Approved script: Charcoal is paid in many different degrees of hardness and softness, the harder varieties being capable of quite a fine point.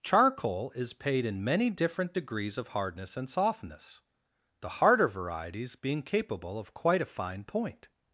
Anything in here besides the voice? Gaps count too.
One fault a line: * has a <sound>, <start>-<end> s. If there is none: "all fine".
all fine